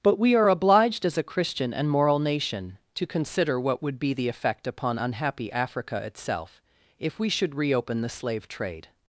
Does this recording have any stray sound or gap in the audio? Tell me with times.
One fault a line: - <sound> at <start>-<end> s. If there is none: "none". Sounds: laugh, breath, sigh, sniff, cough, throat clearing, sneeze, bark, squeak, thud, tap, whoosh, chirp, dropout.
none